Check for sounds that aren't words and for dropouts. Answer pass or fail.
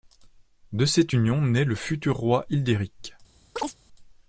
fail